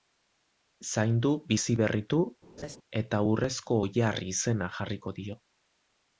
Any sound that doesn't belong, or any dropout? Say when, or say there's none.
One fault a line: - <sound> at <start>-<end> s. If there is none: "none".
- laugh at 2.6-2.8 s